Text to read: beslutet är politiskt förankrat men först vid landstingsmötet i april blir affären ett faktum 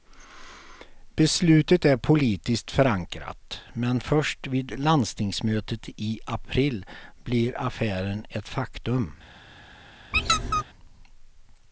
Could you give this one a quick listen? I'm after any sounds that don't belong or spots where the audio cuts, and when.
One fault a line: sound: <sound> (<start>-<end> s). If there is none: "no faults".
sound: squeak (10.1-10.6 s)